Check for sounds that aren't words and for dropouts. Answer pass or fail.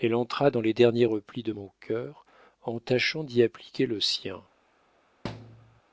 fail